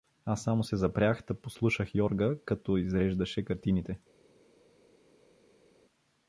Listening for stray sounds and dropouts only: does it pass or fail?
pass